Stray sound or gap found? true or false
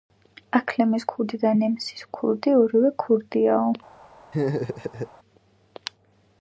true